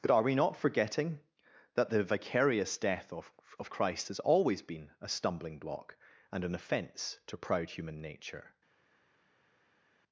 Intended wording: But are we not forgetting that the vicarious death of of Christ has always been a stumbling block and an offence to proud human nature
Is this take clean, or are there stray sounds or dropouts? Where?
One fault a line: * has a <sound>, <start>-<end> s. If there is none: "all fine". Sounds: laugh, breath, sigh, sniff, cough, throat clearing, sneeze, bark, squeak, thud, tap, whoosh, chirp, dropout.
all fine